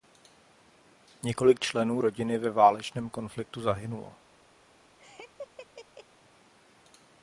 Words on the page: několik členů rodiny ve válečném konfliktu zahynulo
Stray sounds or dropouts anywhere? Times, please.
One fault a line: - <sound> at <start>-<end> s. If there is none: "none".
- laugh at 5.0-6.1 s